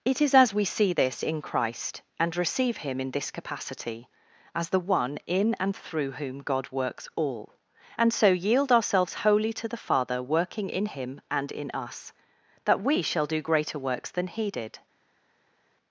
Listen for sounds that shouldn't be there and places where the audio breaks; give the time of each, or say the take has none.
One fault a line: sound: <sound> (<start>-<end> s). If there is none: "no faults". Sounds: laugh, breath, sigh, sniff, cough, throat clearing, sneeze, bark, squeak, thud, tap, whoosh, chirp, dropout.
no faults